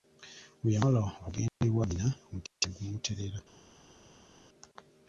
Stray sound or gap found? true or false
false